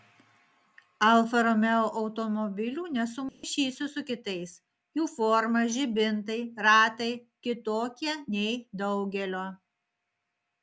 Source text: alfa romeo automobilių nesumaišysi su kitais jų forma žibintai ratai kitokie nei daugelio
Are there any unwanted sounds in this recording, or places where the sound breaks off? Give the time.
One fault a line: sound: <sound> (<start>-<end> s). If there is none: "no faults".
sound: dropout (3.3-3.4 s)